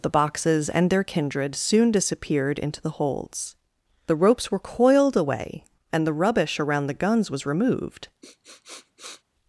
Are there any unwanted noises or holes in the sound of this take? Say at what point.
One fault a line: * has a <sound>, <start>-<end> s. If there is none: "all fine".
* has a sniff, 8.2-9.2 s